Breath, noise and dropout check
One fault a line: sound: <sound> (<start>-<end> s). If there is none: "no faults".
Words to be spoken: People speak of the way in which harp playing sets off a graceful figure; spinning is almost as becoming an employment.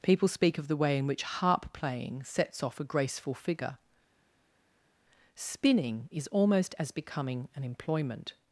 no faults